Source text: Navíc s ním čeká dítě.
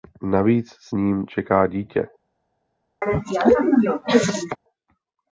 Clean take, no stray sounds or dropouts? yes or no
no